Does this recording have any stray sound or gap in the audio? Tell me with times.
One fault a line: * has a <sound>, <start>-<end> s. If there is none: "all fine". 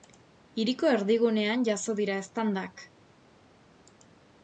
all fine